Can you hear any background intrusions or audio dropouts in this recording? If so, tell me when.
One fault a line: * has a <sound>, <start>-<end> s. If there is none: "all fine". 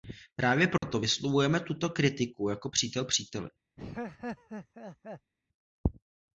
* has a dropout, 0.8-0.8 s
* has a laugh, 3.8-5.3 s